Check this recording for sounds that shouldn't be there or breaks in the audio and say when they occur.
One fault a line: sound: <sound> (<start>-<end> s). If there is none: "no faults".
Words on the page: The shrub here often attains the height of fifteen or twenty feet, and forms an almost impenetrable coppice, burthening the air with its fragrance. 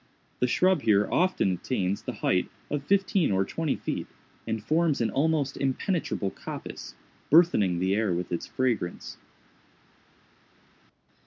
no faults